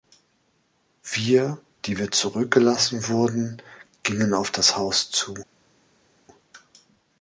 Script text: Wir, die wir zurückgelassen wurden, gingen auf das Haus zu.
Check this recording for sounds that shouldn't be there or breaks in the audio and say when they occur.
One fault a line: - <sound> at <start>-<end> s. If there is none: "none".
none